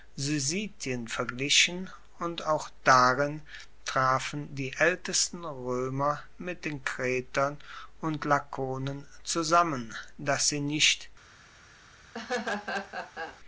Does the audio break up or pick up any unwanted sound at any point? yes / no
yes